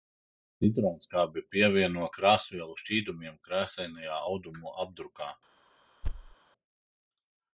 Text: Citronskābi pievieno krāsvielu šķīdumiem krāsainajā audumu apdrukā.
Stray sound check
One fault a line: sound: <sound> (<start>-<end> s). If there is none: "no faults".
sound: thud (6.0-6.3 s)